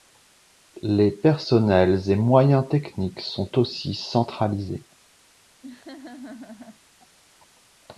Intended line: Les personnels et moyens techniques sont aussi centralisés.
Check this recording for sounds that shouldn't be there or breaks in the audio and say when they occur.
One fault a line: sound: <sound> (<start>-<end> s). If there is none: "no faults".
sound: laugh (5.6-6.8 s)